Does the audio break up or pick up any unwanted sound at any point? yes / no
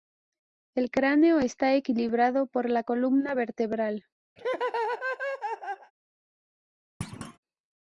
yes